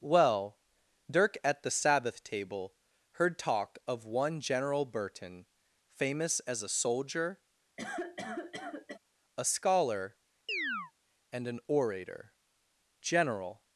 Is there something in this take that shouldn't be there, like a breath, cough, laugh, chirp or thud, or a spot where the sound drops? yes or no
yes